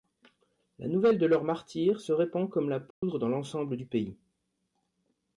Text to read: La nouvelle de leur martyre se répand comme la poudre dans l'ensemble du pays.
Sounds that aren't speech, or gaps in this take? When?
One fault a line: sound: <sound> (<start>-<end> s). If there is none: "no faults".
sound: dropout (2.9-3.0 s)